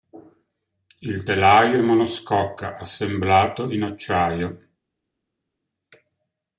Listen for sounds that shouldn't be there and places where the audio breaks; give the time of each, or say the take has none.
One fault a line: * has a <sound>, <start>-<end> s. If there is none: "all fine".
all fine